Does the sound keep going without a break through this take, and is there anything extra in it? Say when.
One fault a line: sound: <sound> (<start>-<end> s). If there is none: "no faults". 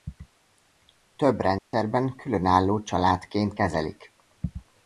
sound: dropout (1.6-1.7 s)